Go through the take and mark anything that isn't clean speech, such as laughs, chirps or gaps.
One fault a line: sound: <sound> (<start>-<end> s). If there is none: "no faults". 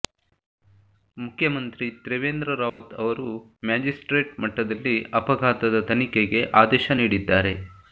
sound: dropout (2.7-2.8 s)